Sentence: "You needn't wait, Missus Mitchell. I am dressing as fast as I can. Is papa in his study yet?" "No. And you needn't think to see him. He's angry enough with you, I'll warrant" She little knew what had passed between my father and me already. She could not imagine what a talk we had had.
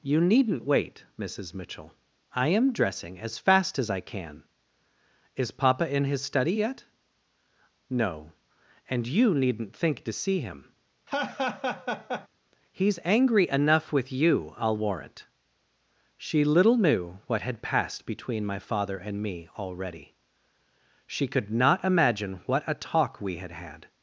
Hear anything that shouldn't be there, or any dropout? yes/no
yes